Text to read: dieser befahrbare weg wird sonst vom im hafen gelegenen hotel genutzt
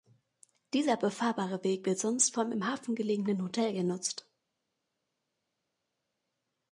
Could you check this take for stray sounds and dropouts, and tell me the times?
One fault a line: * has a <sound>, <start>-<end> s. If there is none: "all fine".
all fine